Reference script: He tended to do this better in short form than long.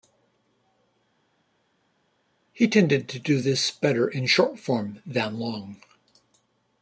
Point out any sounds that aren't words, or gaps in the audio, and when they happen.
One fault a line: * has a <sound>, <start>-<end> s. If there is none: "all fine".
all fine